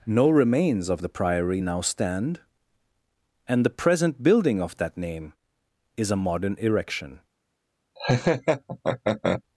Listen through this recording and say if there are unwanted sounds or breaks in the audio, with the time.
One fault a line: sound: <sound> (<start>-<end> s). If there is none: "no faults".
sound: laugh (8.0-9.4 s)